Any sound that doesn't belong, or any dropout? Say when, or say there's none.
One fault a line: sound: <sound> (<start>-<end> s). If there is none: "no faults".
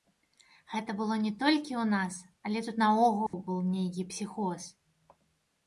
sound: dropout (3.3-3.3 s)